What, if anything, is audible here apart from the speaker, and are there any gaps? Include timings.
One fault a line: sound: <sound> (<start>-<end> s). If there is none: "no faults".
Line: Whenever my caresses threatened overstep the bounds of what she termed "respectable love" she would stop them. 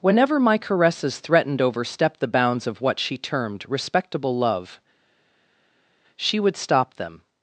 no faults